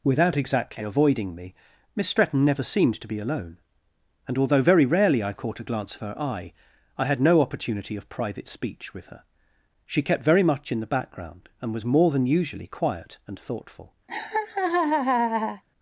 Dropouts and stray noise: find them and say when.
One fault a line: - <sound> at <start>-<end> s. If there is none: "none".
- laugh at 14.1-15.6 s